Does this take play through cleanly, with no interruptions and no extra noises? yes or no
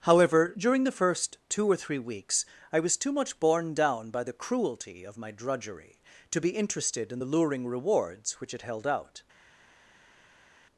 yes